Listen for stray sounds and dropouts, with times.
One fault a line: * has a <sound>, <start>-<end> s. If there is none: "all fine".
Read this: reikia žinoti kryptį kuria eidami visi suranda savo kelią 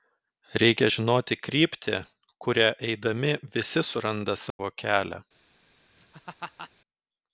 * has a dropout, 4.5-4.6 s
* has a laugh, 6.0-6.7 s